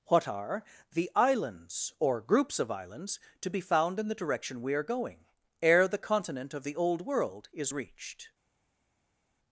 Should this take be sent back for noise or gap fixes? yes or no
no